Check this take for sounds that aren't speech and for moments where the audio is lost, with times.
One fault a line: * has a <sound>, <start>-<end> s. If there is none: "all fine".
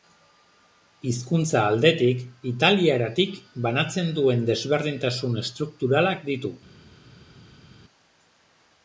all fine